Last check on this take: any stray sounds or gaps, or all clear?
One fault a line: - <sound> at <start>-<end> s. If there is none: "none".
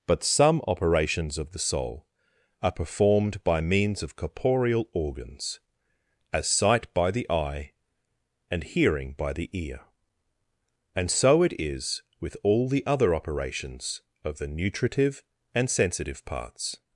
none